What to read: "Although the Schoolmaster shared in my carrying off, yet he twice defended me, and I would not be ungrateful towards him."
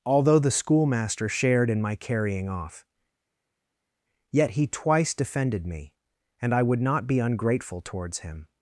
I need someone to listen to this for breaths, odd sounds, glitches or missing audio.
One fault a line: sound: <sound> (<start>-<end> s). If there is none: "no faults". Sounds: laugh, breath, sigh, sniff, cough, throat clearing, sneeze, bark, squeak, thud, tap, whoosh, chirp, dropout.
no faults